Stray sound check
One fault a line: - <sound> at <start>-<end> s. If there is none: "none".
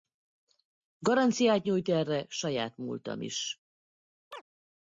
- chirp at 4.3-4.4 s